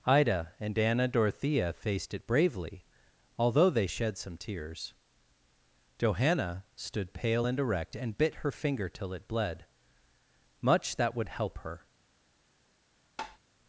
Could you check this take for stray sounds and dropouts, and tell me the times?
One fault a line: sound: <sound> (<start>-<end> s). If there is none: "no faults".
sound: tap (13.2-13.4 s)